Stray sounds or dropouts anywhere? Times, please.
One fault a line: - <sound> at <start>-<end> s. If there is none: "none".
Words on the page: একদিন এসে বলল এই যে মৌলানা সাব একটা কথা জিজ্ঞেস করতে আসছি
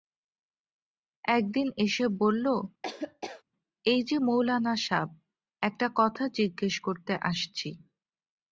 - laugh at 2.8-3.4 s